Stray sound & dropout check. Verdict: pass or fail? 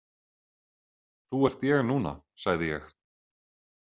pass